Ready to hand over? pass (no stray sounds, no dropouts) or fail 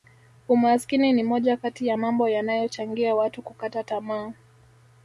pass